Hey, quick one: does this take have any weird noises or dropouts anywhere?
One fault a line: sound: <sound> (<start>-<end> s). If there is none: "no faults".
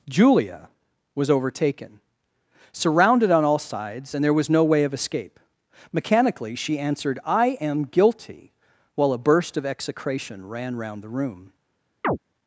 sound: chirp (12.0-12.2 s)